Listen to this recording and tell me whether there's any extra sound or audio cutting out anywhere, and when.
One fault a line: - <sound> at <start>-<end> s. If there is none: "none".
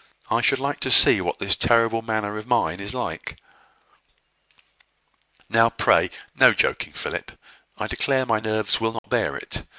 - dropout at 9.0-9.0 s